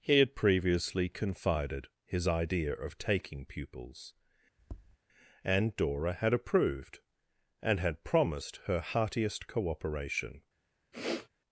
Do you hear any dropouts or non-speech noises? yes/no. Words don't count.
yes